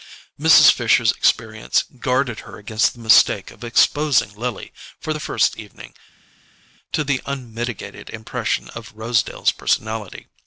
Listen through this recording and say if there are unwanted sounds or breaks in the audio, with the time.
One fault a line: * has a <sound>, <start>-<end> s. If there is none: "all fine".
all fine